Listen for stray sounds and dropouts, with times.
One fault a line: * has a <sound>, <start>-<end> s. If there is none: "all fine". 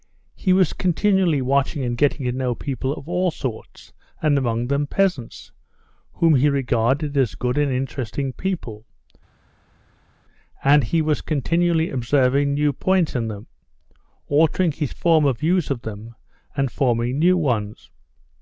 all fine